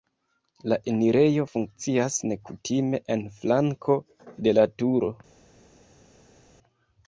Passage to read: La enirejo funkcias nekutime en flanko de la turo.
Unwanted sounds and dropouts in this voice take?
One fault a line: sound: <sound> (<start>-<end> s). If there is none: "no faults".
no faults